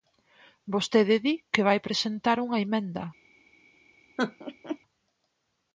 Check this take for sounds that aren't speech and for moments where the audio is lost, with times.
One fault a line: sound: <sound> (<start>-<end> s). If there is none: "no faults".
sound: laugh (4.2-4.8 s)